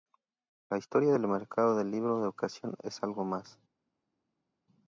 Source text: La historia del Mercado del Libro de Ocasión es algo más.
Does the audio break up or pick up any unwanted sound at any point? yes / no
no